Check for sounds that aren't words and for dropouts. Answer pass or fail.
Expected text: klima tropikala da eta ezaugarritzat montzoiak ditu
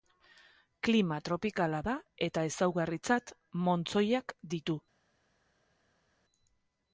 pass